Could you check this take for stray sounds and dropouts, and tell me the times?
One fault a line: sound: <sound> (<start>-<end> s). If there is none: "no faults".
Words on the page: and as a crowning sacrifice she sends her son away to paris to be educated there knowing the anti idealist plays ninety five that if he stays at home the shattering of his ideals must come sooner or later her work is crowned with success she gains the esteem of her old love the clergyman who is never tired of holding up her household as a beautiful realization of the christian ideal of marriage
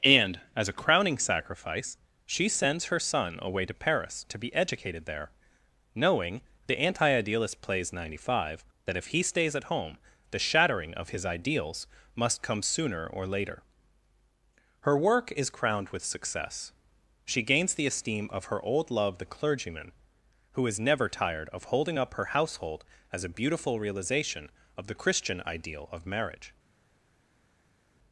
no faults